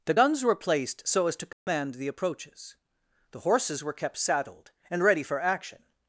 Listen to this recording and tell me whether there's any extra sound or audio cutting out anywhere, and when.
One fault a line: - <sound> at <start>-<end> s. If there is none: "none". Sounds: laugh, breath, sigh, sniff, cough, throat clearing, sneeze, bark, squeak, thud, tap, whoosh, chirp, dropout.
- dropout at 1.5-1.7 s